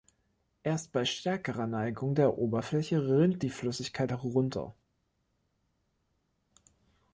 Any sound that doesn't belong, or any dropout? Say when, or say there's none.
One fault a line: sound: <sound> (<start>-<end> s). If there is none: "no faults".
no faults